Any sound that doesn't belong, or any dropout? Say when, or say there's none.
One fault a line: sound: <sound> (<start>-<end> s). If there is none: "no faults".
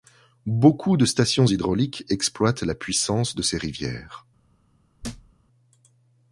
sound: thud (5.0-5.3 s)